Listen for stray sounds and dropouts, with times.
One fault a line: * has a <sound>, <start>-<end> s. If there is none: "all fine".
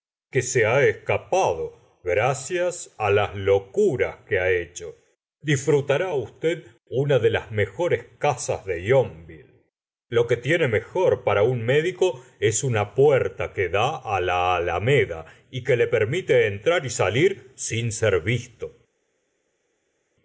all fine